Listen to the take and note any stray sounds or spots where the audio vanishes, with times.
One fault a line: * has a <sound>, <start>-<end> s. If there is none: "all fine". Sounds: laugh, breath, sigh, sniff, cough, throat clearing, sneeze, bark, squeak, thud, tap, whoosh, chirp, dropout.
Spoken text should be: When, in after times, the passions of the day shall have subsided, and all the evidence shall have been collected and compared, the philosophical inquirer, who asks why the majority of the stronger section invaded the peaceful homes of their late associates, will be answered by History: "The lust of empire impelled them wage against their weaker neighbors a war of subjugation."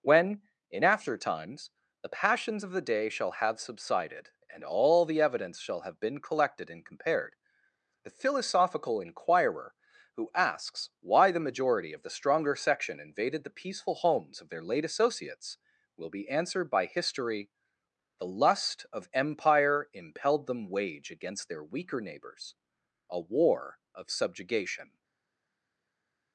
all fine